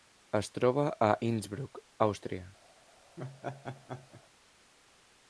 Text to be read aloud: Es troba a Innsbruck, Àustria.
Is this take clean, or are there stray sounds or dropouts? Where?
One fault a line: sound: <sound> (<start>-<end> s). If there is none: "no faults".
sound: laugh (3.2-4.2 s)